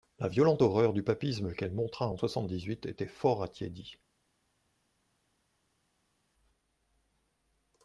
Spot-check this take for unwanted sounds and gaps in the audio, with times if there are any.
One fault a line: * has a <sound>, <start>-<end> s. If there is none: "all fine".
all fine